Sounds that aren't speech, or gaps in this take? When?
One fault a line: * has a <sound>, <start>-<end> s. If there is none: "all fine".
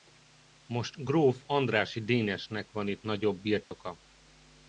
* has a dropout, 3.6-3.7 s